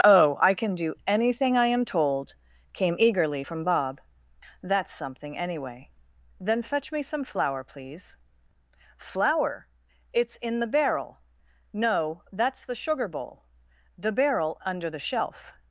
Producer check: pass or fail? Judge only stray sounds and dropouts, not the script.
pass